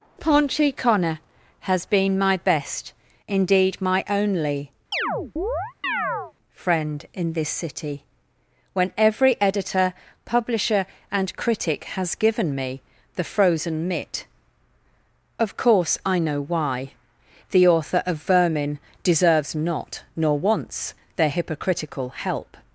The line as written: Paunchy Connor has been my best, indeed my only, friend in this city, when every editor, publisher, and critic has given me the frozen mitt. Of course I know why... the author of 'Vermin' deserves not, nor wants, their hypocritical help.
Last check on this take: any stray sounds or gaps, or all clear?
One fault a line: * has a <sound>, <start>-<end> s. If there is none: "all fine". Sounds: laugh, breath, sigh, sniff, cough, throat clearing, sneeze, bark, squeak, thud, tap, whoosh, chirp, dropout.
* has a chirp, 4.9-6.3 s